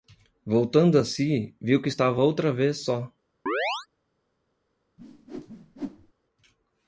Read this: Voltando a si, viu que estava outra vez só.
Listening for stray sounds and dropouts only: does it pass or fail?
fail